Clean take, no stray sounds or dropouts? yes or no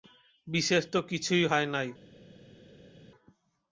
yes